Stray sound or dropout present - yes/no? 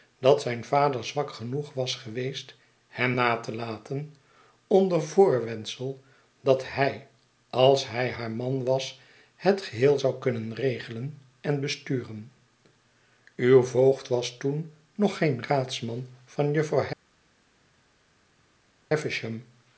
no